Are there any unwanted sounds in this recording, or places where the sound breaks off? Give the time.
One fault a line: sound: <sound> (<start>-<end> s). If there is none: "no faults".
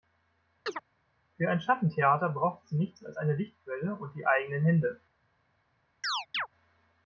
sound: chirp (0.7-0.8 s)
sound: chirp (6.0-6.5 s)